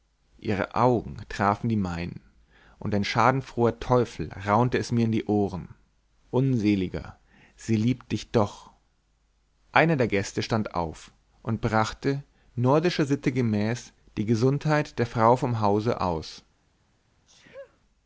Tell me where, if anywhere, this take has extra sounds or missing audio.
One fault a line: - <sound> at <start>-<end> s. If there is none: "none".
- sneeze at 17.3-17.8 s